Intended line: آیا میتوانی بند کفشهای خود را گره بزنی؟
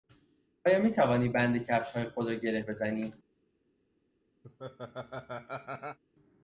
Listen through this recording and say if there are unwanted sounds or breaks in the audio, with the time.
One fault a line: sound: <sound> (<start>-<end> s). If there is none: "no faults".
sound: laugh (4.4-6.0 s)